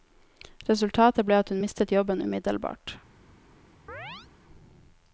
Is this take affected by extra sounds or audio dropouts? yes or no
yes